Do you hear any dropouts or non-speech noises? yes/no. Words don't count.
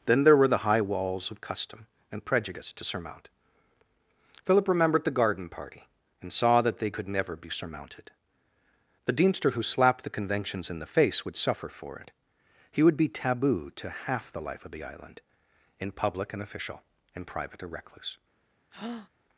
yes